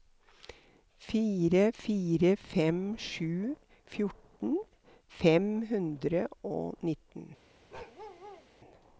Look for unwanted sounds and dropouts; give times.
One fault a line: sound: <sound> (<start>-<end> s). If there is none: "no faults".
sound: bark (7.7-8.5 s)